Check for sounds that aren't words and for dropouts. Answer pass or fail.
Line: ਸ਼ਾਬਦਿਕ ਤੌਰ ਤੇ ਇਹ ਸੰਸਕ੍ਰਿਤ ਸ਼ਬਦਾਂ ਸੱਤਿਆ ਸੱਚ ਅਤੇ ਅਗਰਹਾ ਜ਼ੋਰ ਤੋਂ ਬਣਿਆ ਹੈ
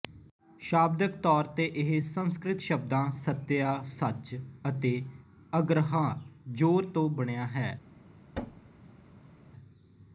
fail